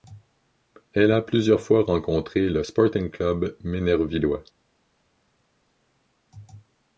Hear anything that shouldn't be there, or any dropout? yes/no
no